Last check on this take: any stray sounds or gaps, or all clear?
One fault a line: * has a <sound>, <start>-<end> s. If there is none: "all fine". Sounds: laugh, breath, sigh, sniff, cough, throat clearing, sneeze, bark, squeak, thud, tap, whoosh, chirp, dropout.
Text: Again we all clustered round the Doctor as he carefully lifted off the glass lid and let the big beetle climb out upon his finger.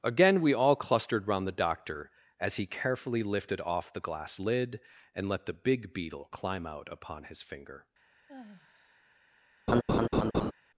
* has a sigh, 8.3-9.0 s
* has a laugh, 9.7-10.5 s